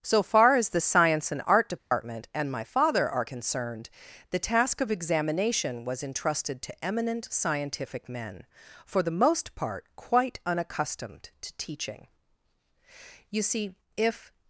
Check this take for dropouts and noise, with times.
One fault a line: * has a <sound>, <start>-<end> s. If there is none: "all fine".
* has a dropout, 1.8-1.9 s